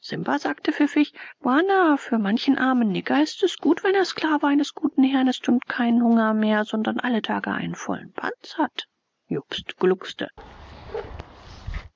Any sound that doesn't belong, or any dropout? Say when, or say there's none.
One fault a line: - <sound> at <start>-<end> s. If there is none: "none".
- bark at 10.4-11.9 s